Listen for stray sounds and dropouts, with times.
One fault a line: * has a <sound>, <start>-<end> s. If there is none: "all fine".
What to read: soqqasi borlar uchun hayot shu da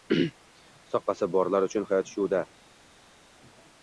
all fine